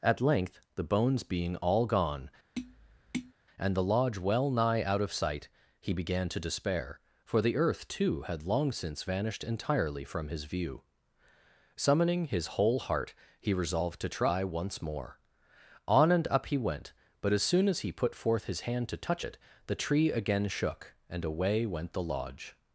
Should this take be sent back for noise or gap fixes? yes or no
yes